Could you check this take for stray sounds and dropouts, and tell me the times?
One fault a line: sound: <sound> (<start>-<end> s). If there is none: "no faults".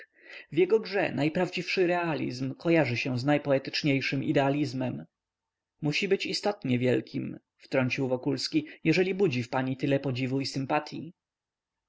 no faults